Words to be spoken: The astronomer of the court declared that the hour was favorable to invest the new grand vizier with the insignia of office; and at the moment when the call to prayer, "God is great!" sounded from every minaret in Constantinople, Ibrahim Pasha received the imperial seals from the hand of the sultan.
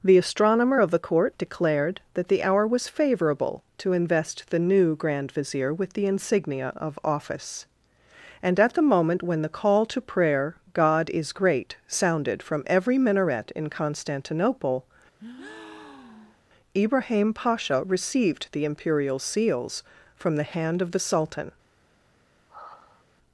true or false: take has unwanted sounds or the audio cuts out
true